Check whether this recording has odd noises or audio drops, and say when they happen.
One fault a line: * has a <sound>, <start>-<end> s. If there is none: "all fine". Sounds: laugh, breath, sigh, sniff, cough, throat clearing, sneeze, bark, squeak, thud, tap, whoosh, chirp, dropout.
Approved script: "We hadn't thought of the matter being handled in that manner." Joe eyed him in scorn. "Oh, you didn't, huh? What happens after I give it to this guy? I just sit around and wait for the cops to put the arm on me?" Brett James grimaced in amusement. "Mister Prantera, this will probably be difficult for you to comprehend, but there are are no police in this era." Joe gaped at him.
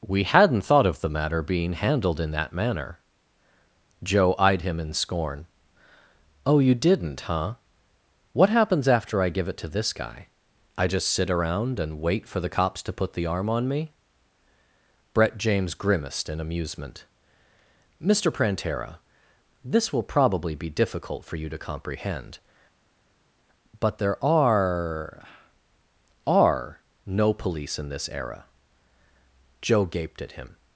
all fine